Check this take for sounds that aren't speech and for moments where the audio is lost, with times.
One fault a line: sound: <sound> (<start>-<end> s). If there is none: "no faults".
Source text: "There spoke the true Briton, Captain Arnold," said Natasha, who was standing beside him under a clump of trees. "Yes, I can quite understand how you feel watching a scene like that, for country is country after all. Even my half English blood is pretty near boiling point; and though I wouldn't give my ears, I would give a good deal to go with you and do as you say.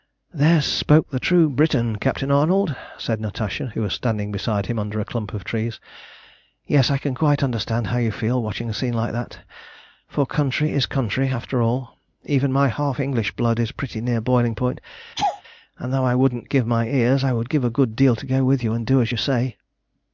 sound: laugh (15.2-15.4 s)